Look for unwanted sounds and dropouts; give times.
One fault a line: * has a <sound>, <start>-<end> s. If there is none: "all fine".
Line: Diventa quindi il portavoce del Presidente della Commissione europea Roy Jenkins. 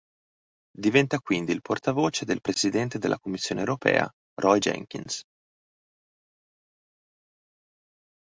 all fine